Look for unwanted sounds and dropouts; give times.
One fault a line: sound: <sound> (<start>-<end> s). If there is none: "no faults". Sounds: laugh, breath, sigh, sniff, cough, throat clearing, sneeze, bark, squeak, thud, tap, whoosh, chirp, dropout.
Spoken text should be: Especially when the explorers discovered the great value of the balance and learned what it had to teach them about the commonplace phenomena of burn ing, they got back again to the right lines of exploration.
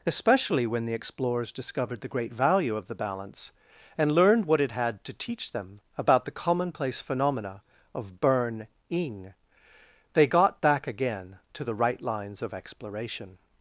no faults